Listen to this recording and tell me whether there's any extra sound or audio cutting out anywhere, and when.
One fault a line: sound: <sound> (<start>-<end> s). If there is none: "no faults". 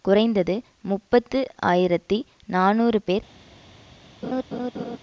sound: laugh (4.2-5.0 s)